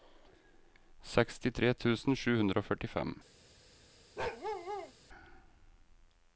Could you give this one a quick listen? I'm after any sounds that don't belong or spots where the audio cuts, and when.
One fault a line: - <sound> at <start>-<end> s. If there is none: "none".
- bark at 4.2-4.9 s